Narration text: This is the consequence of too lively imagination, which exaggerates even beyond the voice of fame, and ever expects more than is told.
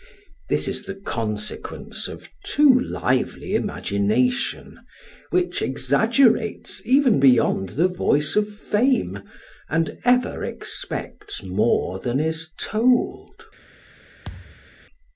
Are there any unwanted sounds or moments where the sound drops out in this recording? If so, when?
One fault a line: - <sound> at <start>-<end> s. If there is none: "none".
- thud at 14.2-14.7 s